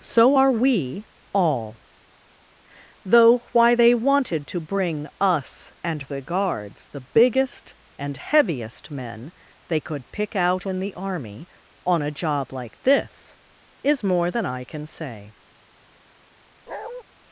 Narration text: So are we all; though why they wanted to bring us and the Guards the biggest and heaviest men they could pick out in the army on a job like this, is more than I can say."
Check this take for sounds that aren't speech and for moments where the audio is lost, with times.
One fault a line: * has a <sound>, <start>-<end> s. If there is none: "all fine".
* has a bark, 16.7-17.0 s